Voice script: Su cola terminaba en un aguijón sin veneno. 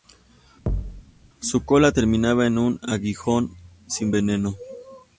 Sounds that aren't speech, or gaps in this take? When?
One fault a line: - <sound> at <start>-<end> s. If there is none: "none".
- thud at 0.7-1.0 s